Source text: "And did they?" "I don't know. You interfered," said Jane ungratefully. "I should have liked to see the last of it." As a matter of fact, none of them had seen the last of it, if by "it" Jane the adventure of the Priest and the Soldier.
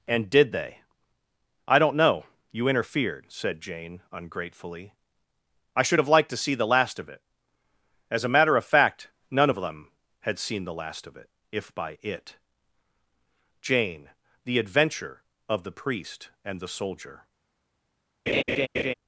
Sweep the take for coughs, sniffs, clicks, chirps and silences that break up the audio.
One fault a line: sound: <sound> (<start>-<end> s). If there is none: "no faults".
sound: laugh (18.3-18.9 s)